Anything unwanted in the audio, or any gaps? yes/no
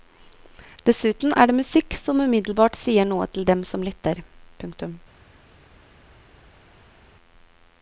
no